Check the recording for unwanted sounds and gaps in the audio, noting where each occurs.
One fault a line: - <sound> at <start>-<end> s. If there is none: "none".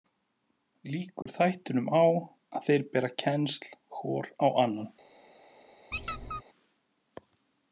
- dropout at 1.2-1.3 s
- squeak at 5.9-6.4 s